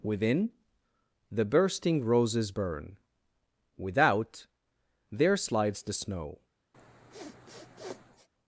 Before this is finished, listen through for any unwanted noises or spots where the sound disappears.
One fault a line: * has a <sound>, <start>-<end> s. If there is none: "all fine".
* has a sniff, 6.7-8.3 s